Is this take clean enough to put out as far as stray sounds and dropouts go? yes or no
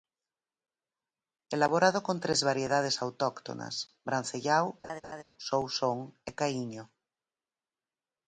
no